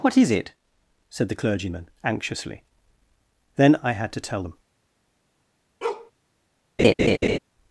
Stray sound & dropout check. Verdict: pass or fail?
fail